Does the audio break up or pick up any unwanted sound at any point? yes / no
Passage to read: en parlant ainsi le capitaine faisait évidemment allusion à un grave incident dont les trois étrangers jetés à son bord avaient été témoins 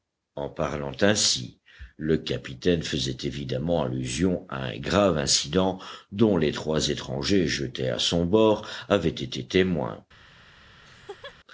yes